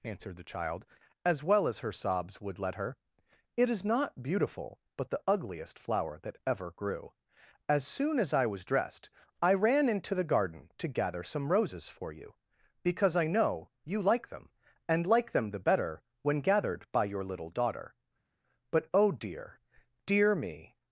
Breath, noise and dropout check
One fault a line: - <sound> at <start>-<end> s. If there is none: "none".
none